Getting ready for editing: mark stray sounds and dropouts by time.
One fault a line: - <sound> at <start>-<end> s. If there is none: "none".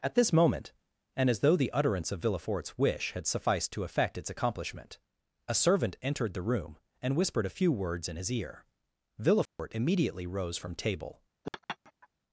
- dropout at 9.5-9.6 s
- laugh at 11.4-12.1 s